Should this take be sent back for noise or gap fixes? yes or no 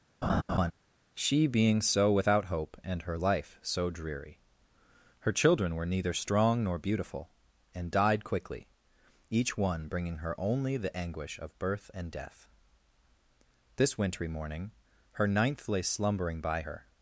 yes